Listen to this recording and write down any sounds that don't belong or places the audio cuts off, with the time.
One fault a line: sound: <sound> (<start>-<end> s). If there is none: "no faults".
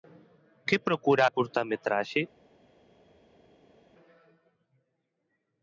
no faults